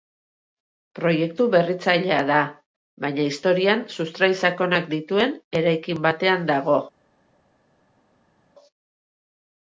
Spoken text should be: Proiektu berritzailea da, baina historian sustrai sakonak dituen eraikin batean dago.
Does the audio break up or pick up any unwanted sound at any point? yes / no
no